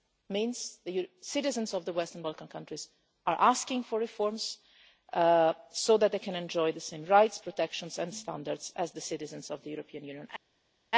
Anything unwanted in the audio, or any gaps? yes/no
no